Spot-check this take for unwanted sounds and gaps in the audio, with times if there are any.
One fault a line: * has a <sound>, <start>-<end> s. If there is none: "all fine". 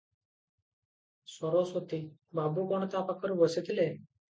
all fine